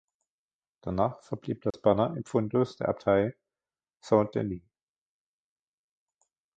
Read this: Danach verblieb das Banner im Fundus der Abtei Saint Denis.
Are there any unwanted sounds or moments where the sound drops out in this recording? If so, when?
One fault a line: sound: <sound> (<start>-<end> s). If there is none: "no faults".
sound: dropout (1.7-1.7 s)